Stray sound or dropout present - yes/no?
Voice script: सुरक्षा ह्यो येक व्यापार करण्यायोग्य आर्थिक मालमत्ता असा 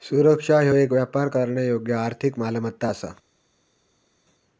no